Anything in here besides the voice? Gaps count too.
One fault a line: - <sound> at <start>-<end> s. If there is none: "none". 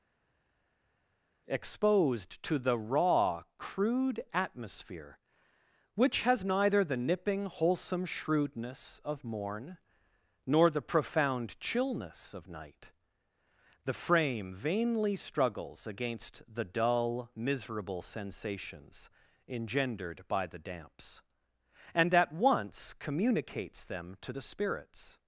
none